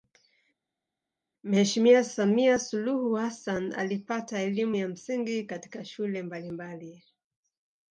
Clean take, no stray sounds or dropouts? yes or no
yes